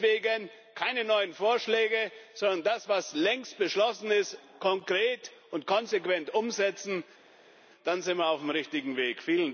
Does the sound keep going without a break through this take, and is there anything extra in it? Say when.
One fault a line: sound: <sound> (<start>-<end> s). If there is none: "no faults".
no faults